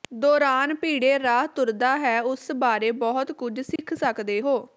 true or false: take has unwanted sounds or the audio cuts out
true